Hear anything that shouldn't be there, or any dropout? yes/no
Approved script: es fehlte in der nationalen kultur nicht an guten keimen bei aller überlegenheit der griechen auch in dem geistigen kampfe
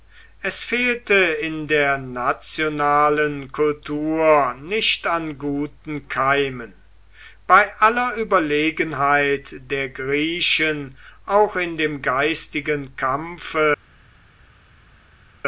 no